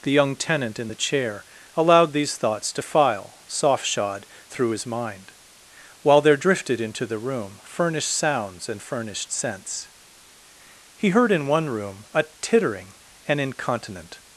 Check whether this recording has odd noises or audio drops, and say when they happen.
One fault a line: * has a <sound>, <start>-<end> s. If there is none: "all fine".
all fine